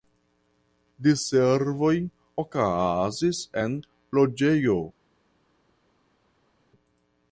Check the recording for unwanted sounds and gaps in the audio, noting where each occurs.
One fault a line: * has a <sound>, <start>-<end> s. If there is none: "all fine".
all fine